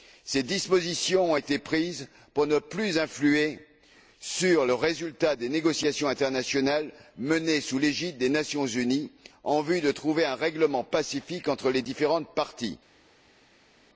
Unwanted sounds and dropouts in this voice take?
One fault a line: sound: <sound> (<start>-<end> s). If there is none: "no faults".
no faults